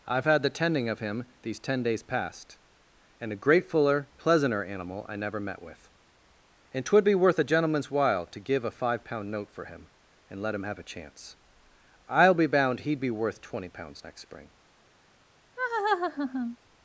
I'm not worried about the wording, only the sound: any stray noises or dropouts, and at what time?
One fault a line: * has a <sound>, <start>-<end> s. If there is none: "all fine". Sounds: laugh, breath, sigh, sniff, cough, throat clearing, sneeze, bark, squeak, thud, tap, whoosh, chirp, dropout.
* has a laugh, 15.6-16.6 s